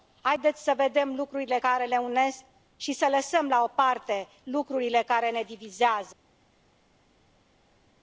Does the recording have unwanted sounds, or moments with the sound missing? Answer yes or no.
no